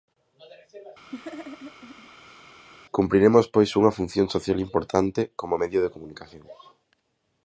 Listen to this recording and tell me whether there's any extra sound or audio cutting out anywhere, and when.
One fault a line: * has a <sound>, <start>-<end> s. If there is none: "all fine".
* has a laugh, 1.1-2.4 s